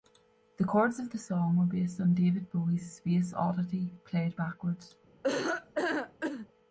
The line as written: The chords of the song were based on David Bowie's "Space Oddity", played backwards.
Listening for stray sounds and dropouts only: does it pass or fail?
fail